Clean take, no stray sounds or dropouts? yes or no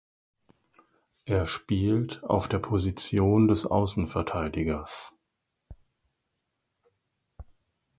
yes